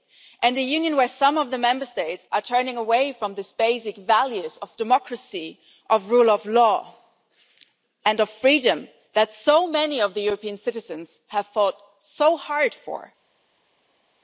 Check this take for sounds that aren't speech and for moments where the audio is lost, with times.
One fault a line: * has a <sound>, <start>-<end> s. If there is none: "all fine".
all fine